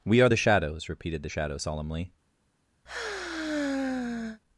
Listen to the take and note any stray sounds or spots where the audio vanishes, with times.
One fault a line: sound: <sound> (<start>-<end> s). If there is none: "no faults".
sound: sigh (2.9-4.4 s)